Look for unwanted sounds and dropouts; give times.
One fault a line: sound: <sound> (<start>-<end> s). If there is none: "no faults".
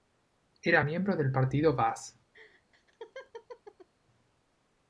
sound: laugh (2.3-3.9 s)